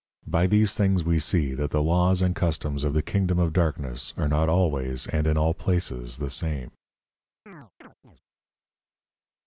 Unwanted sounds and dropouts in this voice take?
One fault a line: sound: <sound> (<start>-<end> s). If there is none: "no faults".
sound: chirp (7.5-8.2 s)